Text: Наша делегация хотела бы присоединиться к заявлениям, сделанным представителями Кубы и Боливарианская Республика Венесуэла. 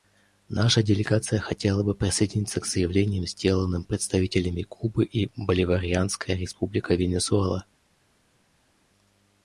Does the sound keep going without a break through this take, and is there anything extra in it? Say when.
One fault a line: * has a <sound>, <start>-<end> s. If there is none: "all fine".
all fine